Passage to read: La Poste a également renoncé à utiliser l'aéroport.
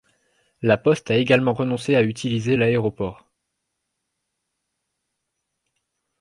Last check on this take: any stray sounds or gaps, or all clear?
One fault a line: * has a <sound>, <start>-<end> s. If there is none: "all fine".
all fine